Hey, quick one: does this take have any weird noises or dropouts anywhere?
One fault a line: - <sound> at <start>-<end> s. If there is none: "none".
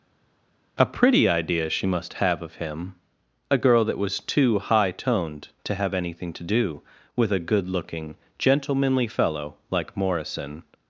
none